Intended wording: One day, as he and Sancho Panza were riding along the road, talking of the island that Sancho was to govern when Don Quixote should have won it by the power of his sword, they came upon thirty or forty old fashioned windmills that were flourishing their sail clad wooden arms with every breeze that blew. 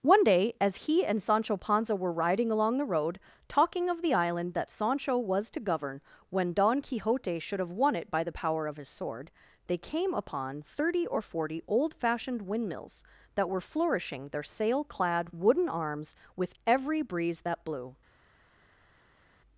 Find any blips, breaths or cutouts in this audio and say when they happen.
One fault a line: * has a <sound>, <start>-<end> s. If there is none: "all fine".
all fine